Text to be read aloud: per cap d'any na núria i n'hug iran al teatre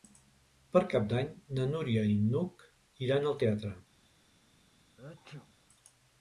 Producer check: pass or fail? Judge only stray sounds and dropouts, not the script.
fail